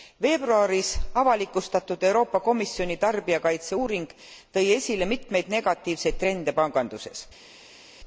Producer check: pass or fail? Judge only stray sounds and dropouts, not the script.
pass